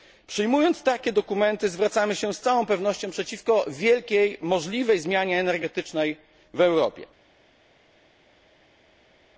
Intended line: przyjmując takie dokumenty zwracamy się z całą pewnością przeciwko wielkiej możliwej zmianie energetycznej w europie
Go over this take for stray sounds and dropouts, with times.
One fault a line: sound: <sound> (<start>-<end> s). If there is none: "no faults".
no faults